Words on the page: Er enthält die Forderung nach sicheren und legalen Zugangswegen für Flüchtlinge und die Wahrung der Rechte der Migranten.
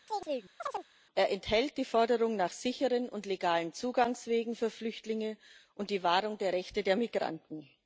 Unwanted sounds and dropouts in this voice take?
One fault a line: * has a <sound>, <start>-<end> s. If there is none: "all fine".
* has a chirp, 0.1-0.9 s